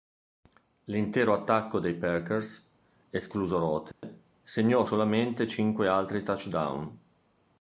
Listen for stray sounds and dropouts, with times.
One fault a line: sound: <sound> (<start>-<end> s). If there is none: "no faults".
sound: dropout (3.9-4.0 s)